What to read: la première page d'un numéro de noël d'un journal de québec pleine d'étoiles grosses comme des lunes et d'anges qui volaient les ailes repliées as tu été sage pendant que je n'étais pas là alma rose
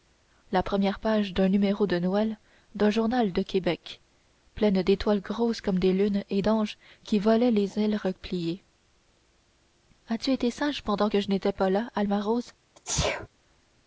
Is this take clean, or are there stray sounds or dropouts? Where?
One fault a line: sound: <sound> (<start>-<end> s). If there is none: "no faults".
sound: sneeze (12.8-13.3 s)